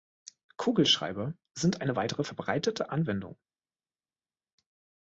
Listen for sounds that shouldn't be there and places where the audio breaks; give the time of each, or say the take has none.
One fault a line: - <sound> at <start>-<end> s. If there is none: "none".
none